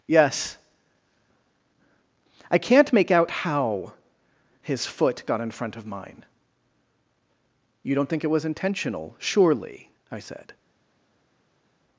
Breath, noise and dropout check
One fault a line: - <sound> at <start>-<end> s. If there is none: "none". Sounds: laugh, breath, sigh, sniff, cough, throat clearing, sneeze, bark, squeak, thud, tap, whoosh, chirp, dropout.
none